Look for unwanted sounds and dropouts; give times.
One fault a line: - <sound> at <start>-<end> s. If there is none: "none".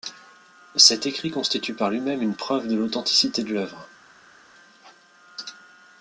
none